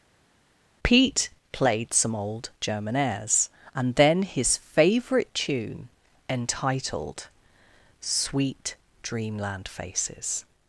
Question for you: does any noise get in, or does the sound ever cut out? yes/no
no